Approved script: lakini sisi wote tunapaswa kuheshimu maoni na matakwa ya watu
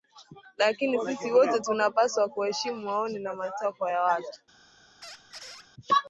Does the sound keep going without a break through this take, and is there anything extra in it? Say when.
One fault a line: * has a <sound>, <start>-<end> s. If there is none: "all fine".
* has a squeak, 5.0-5.7 s